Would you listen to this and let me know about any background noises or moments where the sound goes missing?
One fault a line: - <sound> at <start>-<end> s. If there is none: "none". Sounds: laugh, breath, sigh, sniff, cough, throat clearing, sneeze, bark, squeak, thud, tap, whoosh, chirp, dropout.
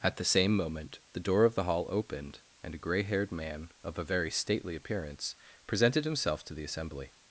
none